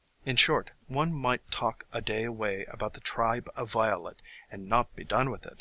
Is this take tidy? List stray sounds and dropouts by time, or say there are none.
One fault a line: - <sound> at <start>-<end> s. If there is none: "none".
none